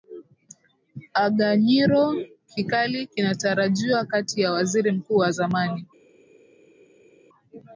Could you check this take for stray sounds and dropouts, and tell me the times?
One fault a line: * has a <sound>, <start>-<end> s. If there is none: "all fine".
all fine